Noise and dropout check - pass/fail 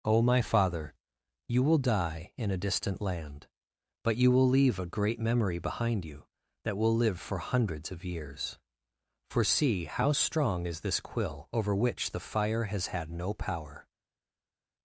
pass